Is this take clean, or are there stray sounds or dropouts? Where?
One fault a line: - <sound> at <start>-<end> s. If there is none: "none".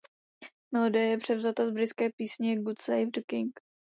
none